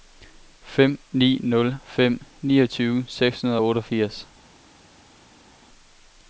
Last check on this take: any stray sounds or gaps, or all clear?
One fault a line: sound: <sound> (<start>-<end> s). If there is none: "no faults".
no faults